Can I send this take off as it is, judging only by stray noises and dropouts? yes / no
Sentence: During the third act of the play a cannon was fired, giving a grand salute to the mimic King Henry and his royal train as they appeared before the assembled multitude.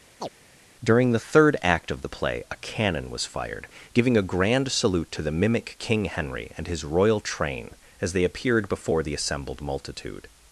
no